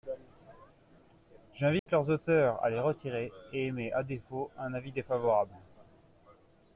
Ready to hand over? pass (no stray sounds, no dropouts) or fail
fail